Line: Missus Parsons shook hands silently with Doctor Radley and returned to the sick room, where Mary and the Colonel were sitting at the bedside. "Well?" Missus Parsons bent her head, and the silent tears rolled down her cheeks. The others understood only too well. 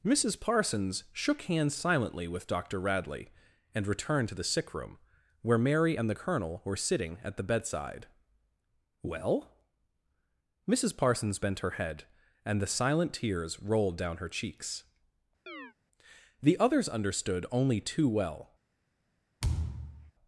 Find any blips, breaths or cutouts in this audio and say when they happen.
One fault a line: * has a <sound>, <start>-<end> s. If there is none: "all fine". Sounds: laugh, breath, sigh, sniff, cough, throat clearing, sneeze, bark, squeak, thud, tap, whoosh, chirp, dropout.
* has a chirp, 15.5-15.7 s
* has a thud, 19.4-20.1 s